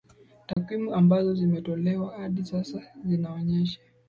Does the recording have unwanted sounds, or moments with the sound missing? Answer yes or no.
yes